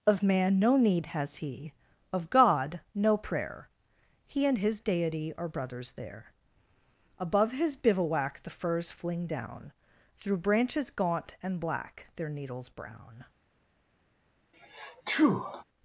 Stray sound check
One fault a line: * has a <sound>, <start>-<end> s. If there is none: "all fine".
* has a sneeze, 14.5-15.6 s